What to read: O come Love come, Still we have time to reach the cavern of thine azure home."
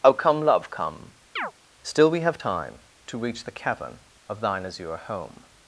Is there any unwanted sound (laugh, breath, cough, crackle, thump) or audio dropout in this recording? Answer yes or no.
yes